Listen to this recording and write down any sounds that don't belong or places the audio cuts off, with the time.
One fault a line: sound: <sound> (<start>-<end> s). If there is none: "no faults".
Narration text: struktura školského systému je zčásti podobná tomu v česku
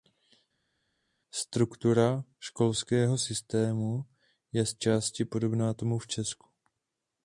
no faults